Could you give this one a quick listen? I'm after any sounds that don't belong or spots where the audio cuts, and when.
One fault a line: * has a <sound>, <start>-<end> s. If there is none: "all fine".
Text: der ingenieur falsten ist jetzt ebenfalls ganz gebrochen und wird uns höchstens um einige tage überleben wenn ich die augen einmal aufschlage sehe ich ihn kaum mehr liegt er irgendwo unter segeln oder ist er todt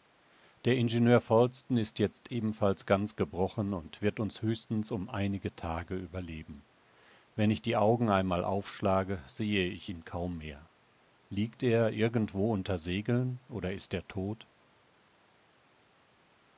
all fine